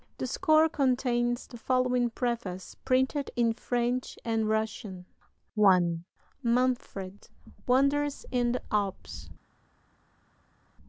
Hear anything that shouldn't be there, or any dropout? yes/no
no